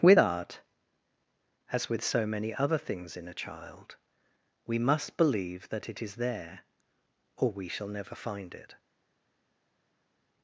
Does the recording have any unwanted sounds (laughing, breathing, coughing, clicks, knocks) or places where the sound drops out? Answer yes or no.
no